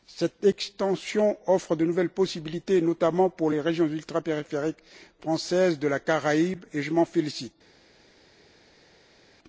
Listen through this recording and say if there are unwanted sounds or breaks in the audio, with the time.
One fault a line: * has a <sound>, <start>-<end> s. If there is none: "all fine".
all fine